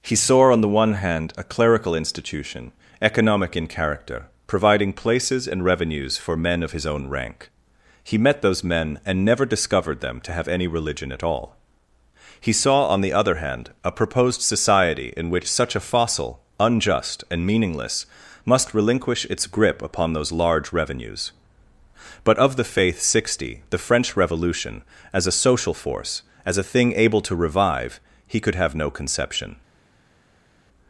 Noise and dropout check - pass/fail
pass